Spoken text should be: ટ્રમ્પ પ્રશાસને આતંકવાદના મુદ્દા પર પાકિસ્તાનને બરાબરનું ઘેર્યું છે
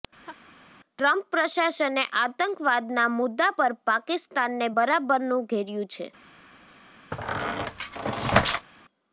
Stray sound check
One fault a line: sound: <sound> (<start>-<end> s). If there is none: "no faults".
sound: laugh (0.2-0.5 s)
sound: squeak (7.1-8.7 s)